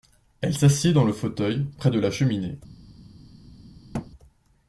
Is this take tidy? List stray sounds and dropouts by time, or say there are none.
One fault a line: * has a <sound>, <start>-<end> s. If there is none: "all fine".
* has a thud, 3.9-4.1 s